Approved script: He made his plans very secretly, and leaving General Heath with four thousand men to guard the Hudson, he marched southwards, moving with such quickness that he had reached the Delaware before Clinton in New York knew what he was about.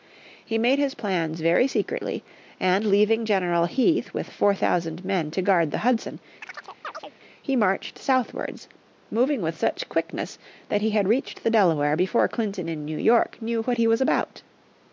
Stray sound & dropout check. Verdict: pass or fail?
fail